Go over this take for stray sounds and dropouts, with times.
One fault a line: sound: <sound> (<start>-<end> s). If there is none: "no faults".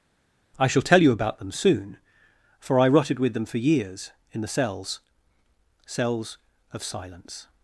no faults